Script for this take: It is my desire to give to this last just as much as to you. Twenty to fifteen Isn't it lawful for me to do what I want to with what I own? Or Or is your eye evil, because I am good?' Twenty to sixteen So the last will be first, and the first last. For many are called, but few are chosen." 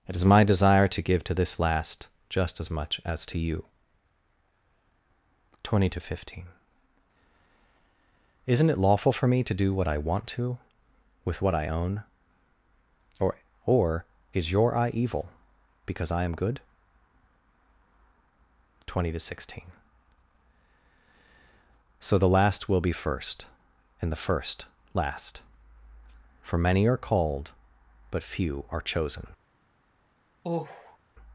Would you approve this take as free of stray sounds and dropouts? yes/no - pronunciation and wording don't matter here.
no